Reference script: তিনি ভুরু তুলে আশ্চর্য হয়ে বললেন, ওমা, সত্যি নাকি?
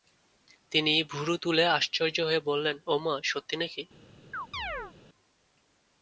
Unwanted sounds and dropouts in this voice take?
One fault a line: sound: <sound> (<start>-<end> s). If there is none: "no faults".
sound: chirp (4.3-4.9 s)